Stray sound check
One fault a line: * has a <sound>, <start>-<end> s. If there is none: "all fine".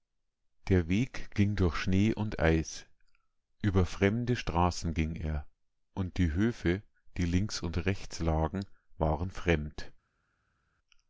all fine